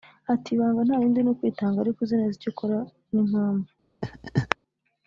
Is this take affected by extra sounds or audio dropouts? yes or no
yes